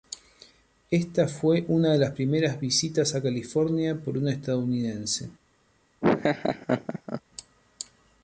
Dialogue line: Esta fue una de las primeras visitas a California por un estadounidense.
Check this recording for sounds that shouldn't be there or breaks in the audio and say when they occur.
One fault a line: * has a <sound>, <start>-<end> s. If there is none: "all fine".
* has a laugh, 6.0-7.2 s